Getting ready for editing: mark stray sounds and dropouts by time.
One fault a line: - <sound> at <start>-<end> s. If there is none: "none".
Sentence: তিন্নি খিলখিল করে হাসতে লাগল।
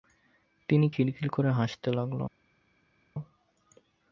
none